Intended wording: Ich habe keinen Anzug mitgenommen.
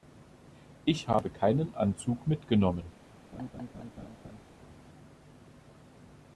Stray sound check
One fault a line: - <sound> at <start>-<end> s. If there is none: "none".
- laugh at 3.3-4.4 s